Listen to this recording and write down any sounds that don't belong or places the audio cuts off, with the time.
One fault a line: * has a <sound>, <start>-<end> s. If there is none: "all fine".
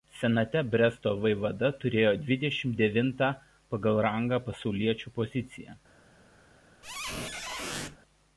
* has a squeak, 6.8-8.0 s